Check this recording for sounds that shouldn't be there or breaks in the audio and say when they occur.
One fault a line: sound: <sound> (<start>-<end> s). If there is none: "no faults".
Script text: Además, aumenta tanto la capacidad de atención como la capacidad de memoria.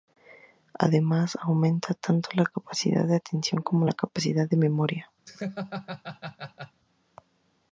sound: laugh (5.3-6.8 s)